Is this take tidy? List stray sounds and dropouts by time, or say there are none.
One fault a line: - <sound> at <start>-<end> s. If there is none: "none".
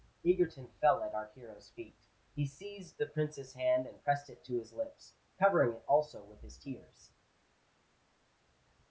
none